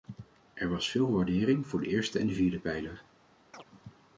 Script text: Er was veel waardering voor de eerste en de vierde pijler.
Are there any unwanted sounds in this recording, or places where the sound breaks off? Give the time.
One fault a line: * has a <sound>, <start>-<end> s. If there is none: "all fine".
* has a chirp, 3.5-3.6 s